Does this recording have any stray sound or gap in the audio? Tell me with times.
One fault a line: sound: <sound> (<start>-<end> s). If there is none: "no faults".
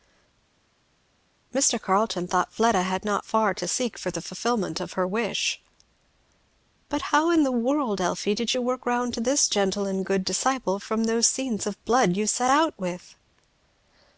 no faults